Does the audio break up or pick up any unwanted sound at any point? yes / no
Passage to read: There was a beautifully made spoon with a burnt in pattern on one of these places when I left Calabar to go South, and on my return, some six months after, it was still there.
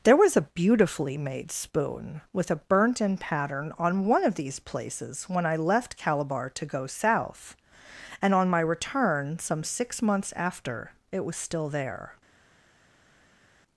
no